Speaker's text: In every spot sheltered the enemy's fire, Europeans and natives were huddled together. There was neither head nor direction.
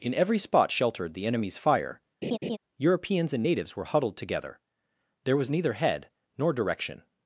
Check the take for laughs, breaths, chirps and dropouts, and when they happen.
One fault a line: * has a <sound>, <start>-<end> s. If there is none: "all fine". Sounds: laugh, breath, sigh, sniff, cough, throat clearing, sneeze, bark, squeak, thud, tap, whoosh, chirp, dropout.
* has a laugh, 2.2-2.6 s